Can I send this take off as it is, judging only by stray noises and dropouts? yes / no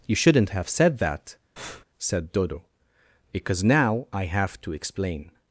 no